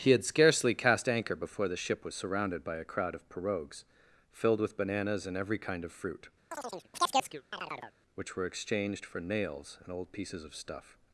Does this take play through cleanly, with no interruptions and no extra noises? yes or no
no